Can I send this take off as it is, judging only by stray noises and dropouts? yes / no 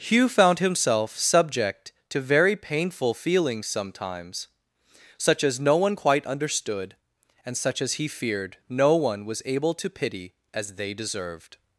yes